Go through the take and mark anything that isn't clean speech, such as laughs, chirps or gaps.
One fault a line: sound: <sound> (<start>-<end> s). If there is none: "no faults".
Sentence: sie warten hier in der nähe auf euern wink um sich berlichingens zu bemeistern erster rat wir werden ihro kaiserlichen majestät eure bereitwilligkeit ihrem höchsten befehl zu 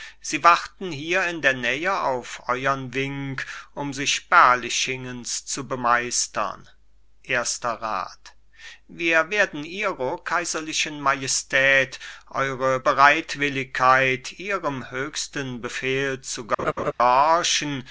sound: laugh (16.6-16.9 s)